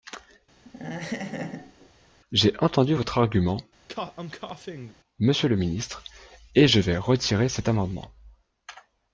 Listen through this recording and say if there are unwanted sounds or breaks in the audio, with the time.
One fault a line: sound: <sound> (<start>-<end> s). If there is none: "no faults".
sound: laugh (0.6-1.9 s)
sound: cough (3.9-5.0 s)